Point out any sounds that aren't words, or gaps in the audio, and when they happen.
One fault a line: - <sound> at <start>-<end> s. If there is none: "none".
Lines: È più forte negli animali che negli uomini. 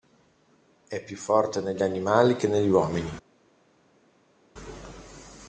none